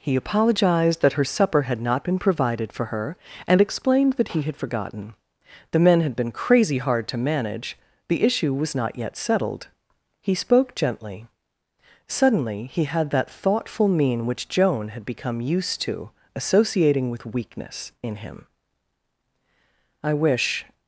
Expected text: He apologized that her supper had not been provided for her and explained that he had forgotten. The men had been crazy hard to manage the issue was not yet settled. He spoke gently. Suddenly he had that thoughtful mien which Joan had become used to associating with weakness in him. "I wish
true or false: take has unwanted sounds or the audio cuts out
false